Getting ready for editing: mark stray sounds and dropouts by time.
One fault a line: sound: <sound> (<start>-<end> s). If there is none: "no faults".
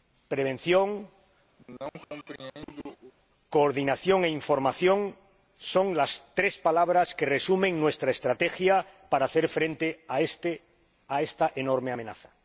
sound: cough (1.6-3.1 s)